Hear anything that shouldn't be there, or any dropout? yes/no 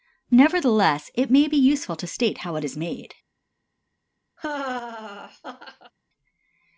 yes